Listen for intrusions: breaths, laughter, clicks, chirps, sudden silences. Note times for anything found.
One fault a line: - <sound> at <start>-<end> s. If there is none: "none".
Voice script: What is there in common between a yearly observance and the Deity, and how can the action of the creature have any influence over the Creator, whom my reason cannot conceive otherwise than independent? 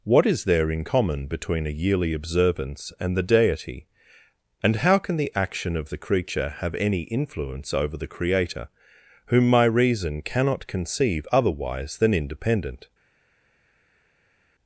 none